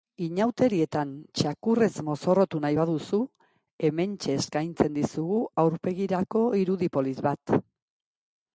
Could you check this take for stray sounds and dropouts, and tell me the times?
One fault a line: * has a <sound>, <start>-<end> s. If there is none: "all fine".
all fine